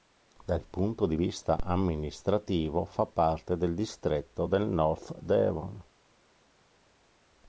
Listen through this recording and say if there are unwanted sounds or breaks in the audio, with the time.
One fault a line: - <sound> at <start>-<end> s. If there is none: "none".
none